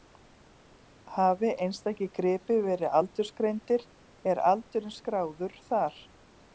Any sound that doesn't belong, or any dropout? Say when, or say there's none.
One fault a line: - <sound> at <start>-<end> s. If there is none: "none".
none